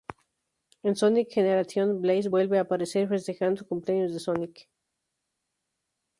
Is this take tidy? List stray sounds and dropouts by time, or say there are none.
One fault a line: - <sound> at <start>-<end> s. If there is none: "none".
none